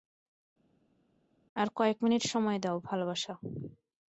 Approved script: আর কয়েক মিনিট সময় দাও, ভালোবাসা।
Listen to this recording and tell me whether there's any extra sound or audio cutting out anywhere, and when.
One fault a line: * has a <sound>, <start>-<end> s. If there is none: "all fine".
all fine